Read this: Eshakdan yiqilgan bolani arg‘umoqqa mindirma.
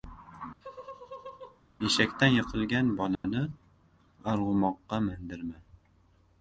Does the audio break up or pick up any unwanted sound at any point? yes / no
yes